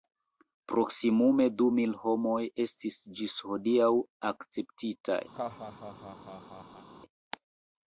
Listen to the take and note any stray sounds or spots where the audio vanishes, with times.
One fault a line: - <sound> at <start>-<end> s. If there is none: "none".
- laugh at 5.3-6.9 s